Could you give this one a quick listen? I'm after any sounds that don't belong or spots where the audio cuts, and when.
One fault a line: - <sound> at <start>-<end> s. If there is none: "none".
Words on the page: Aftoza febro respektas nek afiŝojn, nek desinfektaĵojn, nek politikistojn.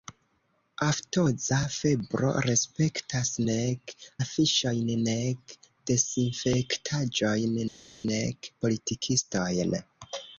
none